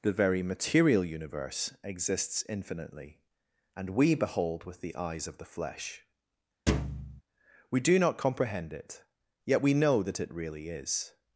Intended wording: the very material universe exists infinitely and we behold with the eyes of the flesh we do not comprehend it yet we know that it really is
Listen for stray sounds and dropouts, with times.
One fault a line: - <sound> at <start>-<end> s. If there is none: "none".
- thud at 6.7-7.2 s